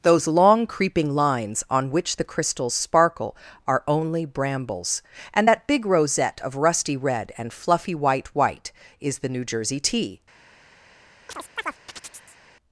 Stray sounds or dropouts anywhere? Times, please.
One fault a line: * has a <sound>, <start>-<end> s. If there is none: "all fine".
* has a chirp, 11.3-12.4 s